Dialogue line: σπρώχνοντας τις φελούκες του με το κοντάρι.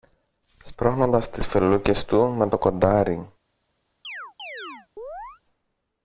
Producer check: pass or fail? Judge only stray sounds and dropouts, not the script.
fail